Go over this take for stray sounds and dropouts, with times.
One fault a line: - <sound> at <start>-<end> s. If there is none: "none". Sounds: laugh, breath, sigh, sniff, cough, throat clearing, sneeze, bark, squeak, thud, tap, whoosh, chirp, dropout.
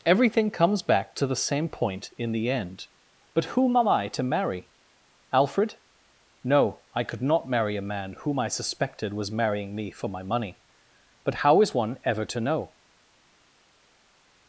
none